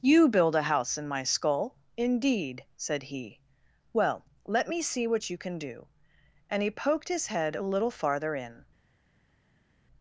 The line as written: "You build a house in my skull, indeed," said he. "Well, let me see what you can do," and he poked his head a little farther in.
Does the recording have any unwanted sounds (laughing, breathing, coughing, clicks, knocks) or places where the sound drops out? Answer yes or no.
no